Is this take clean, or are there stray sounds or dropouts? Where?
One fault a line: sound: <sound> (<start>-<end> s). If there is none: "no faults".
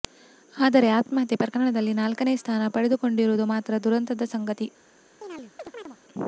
sound: chirp (5.2-6.0 s)